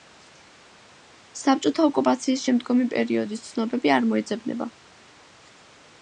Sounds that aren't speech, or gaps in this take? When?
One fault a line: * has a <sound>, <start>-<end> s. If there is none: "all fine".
all fine